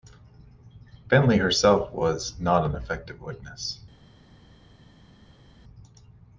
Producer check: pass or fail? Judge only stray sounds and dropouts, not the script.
pass